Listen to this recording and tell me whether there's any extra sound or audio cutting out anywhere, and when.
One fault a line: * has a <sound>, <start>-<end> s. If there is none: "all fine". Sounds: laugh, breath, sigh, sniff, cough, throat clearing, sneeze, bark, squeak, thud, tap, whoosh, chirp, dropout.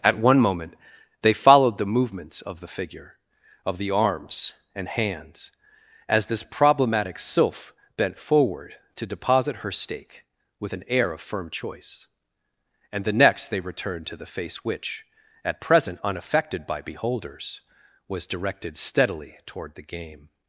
all fine